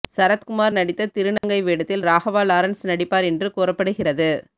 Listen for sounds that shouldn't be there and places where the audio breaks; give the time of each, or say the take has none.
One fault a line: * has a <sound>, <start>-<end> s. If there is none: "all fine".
* has a dropout, 1.4-1.4 s